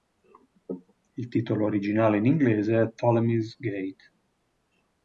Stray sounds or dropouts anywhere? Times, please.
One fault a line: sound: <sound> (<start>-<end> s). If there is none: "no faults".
no faults